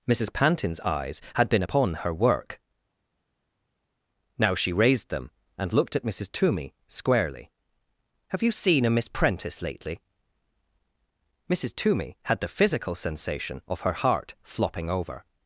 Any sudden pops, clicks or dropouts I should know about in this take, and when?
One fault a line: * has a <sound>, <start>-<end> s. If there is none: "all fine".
all fine